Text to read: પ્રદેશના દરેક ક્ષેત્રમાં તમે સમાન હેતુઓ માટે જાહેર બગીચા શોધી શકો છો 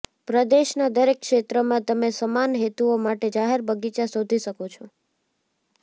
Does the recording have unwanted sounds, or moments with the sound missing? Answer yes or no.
no